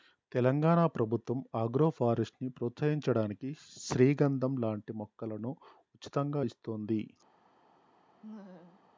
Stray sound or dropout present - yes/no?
yes